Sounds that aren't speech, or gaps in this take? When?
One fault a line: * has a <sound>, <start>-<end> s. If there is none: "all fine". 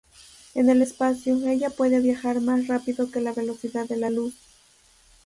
all fine